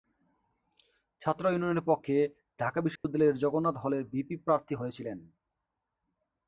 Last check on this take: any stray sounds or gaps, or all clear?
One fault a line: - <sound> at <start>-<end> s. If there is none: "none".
- dropout at 3.0-3.0 s